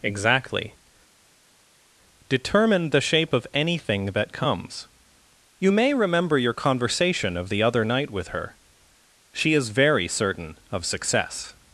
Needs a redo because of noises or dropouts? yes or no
no